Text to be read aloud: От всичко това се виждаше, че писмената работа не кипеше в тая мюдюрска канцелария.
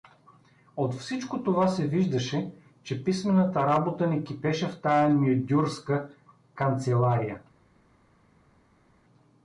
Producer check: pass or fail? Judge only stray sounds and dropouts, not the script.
pass